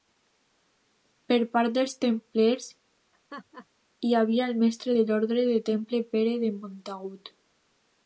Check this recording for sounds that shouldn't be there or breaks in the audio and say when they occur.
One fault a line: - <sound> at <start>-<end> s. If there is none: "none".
- laugh at 3.1-3.7 s